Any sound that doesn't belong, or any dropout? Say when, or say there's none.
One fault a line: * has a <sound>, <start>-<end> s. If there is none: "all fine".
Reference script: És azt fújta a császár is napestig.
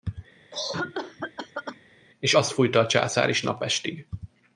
* has a cough, 0.5-1.8 s